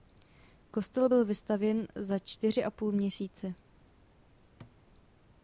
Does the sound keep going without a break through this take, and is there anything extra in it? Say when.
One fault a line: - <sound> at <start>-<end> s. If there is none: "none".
- thud at 4.6-4.8 s